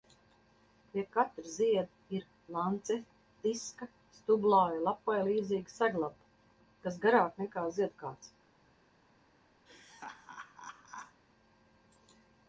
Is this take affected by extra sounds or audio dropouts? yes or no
yes